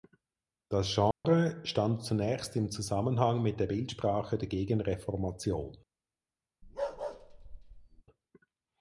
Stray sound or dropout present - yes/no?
yes